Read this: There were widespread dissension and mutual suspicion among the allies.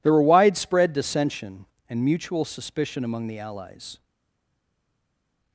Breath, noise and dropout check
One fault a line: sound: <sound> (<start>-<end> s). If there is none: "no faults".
no faults